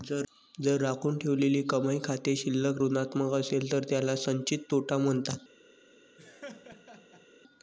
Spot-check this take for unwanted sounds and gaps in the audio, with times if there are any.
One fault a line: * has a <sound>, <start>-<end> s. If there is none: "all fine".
* has a laugh, 6.2-7.3 s